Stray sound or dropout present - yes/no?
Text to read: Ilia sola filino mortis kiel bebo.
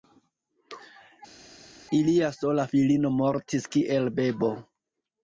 no